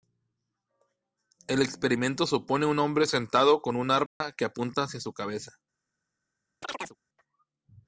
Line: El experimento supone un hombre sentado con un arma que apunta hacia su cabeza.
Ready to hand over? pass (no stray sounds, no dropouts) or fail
fail